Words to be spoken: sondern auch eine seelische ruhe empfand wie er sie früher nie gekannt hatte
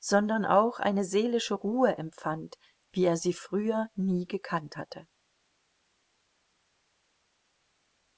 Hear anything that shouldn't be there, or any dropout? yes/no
no